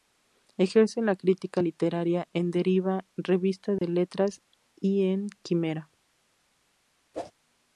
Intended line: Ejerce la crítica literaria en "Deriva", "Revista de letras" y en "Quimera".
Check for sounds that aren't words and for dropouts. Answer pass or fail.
fail